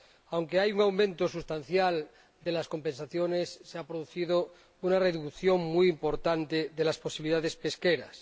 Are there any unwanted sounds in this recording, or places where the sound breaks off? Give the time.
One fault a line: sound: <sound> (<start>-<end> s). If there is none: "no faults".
no faults